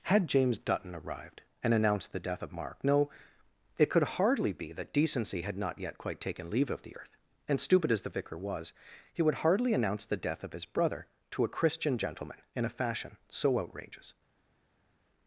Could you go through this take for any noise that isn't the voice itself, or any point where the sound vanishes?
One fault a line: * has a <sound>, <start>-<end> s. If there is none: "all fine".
all fine